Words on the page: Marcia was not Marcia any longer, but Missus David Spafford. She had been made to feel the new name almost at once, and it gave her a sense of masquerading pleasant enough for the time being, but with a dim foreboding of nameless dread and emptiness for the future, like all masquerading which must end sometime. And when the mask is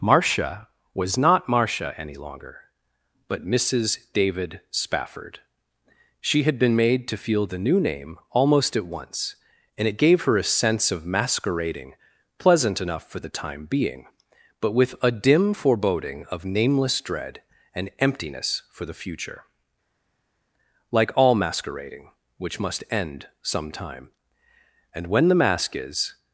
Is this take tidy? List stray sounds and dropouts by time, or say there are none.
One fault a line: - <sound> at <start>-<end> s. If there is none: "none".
none